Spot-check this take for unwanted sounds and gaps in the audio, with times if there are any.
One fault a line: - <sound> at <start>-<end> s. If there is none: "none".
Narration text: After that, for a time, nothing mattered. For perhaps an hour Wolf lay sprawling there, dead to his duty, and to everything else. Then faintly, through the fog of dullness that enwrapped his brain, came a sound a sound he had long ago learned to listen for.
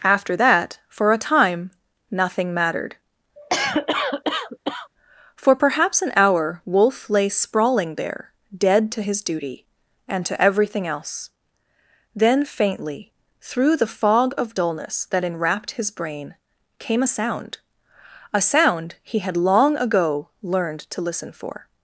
- cough at 3.4-4.9 s